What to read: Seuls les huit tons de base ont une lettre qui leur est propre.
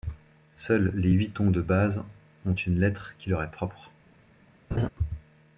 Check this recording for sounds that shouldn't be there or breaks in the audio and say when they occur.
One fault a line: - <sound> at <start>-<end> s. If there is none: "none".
- laugh at 4.7-4.9 s